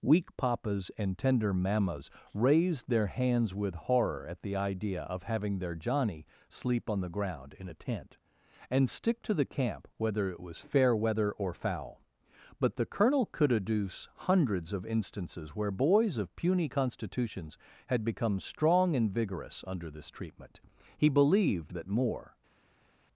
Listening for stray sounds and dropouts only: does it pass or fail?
pass